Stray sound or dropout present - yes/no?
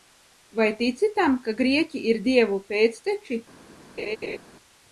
yes